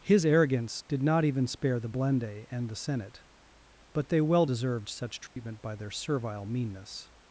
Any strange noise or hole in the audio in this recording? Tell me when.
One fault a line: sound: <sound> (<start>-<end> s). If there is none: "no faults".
sound: dropout (5.3-5.4 s)